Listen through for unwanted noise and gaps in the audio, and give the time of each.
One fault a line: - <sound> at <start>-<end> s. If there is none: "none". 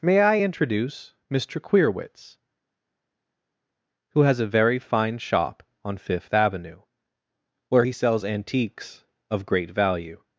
none